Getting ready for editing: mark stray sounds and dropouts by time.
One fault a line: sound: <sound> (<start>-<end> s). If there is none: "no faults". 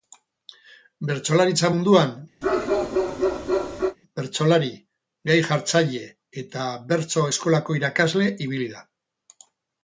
sound: bark (2.4-4.0 s)